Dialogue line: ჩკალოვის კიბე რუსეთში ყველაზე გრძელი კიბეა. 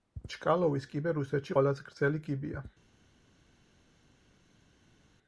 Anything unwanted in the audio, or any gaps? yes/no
no